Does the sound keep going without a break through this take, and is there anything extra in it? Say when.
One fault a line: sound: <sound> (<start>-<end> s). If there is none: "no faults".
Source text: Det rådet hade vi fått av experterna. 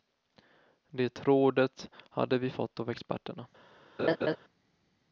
sound: laugh (4.0-4.4 s)